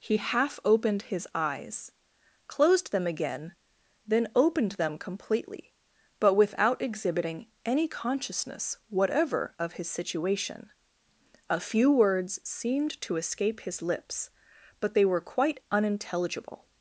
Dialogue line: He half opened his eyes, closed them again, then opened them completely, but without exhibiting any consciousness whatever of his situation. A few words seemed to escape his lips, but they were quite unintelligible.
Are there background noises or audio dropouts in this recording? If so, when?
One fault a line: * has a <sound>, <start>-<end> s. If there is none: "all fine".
all fine